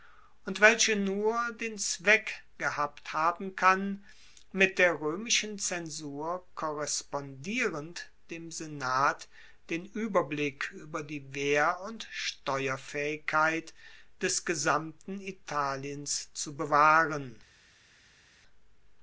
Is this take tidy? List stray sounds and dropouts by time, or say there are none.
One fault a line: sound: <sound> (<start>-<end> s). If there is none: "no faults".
no faults